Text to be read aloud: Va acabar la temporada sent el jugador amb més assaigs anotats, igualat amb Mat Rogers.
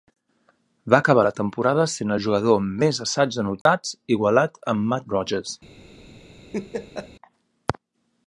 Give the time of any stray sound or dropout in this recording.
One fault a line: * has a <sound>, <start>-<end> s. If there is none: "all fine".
* has a dropout, 3.6-3.7 s
* has a laugh, 6.5-7.1 s